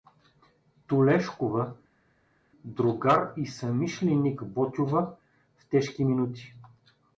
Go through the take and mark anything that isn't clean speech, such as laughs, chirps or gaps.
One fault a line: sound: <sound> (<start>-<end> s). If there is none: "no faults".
no faults